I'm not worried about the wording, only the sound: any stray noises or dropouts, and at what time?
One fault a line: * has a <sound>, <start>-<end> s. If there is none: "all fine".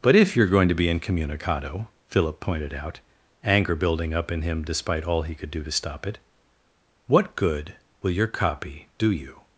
all fine